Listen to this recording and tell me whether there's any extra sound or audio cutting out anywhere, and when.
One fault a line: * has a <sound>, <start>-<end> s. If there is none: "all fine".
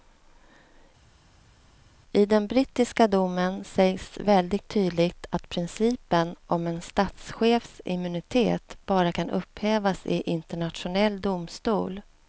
all fine